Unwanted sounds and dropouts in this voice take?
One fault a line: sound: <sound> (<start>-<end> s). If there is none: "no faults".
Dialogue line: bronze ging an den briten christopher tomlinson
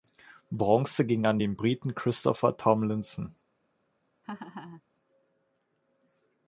sound: laugh (4.2-4.8 s)